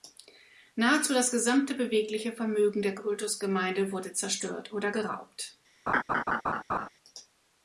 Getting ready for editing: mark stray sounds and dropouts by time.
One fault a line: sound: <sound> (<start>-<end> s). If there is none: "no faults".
sound: laugh (5.9-6.9 s)